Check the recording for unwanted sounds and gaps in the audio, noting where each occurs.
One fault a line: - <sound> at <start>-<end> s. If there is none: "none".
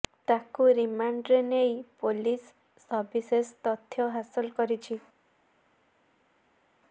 none